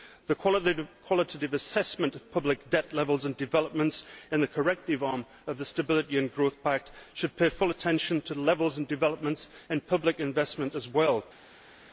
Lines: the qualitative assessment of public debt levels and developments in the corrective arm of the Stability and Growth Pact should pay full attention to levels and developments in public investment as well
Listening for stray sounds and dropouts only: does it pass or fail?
pass